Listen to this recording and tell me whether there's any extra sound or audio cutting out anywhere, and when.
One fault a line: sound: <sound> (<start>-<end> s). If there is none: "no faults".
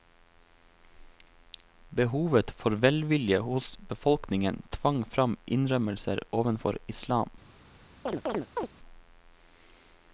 sound: chirp (8.1-8.7 s)